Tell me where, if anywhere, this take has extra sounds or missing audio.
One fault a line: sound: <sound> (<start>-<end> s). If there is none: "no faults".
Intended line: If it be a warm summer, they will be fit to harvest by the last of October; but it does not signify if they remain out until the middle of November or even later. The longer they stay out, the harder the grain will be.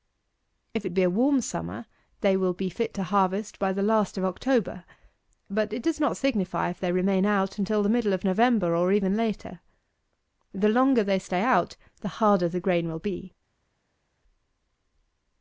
no faults